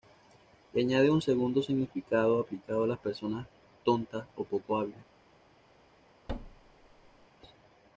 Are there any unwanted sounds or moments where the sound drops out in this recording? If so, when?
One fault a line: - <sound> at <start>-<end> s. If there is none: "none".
- thud at 6.3-7.3 s